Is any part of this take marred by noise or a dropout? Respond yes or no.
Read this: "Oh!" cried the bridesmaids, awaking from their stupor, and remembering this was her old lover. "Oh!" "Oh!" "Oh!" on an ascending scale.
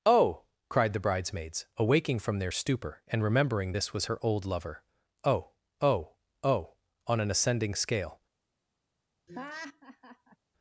yes